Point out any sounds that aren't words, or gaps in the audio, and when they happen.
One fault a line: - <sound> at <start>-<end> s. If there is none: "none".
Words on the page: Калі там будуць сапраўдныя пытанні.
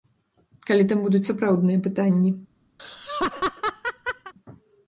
- laugh at 2.8-4.3 s